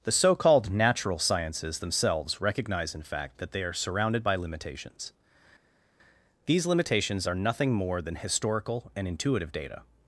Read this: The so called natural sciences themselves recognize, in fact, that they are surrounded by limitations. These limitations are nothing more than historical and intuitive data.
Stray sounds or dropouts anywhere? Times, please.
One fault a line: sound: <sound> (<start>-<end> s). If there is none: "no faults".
no faults